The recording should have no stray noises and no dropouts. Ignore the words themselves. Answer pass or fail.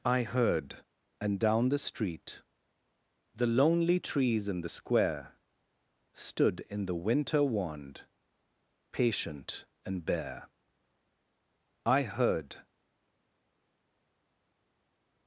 pass